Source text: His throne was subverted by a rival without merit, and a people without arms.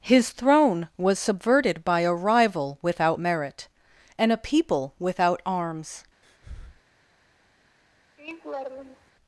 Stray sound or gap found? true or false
true